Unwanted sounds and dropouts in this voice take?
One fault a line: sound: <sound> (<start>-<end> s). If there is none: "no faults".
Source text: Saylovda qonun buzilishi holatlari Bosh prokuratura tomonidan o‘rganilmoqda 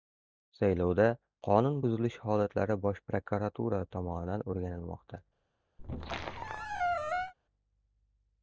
sound: squeak (5.8-7.3 s)